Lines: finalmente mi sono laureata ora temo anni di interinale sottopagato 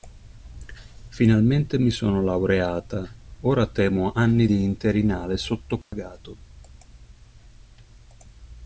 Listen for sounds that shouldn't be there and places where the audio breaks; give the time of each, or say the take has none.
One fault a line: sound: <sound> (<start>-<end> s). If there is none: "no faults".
sound: dropout (5.8-5.9 s)